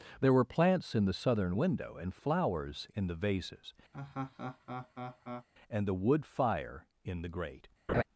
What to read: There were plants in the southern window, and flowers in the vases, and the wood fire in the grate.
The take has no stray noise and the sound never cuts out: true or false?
false